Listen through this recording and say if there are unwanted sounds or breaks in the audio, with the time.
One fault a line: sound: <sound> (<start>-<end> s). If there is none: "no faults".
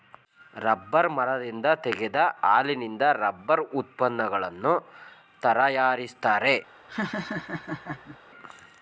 sound: laugh (6.9-8.2 s)